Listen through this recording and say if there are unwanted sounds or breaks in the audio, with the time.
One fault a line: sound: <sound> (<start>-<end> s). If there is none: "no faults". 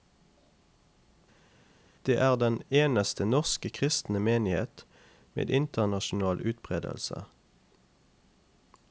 no faults